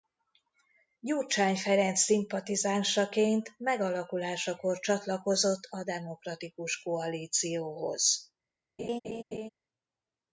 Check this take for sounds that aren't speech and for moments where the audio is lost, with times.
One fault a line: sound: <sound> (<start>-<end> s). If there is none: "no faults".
sound: laugh (8.8-9.5 s)